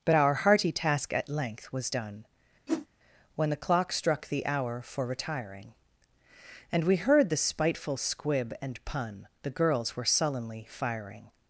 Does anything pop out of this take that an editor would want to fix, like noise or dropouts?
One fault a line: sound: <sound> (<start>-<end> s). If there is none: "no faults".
sound: whoosh (2.7-2.9 s)